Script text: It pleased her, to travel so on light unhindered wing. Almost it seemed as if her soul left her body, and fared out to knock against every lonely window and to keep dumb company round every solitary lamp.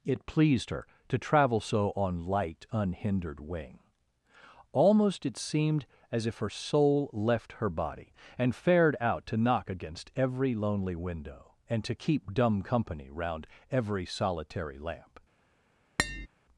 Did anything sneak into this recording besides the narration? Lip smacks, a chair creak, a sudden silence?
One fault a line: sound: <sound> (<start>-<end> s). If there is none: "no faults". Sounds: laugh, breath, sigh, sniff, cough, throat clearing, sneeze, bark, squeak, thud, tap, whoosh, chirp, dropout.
sound: tap (16.0-16.3 s)